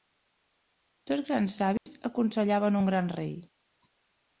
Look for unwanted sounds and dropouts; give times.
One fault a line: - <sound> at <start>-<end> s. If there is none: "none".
- dropout at 1.8-1.9 s